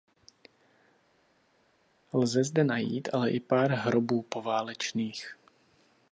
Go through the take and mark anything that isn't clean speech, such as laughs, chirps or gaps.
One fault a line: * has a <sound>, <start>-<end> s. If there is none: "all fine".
all fine